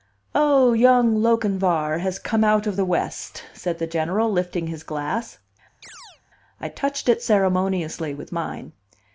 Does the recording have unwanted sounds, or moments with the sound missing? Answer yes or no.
yes